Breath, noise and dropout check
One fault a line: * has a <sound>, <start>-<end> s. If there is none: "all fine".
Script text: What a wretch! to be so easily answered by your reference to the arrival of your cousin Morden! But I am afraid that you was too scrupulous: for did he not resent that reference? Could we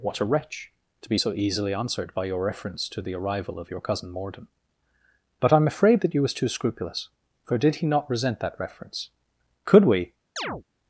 * has a chirp, 10.4-10.6 s